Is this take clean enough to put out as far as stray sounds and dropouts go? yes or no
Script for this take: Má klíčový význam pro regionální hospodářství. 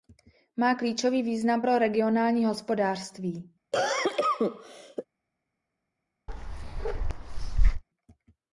no